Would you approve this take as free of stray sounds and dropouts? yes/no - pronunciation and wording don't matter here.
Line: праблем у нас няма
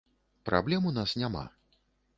yes